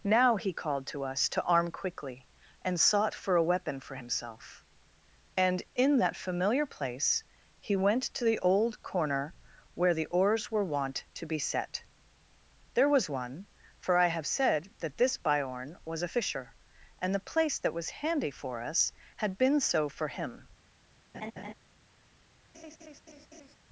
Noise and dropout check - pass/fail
fail